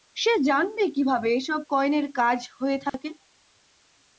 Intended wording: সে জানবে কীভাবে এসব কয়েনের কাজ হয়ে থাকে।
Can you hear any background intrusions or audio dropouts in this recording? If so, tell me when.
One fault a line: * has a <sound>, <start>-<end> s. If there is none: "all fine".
* has a dropout, 2.9-2.9 s